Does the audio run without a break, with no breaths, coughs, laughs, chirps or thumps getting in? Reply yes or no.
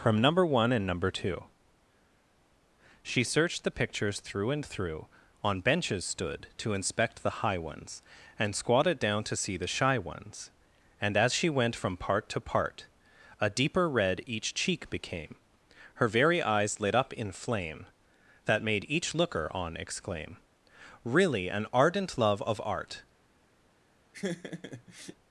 no